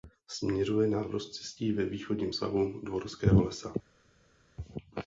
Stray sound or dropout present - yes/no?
no